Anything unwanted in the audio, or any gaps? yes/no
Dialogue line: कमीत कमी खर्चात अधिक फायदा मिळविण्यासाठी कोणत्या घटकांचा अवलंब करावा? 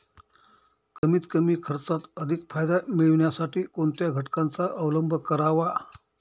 yes